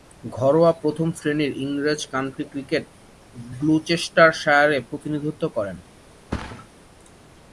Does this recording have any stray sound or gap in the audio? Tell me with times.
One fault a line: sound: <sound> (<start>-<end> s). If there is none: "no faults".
sound: thud (6.3-6.7 s)